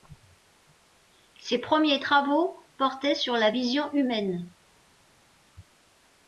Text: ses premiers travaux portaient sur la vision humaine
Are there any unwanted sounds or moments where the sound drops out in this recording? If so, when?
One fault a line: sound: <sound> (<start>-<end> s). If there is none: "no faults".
no faults